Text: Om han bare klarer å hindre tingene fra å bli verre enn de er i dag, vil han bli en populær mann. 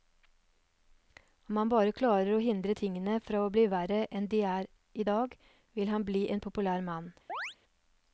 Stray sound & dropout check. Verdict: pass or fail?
fail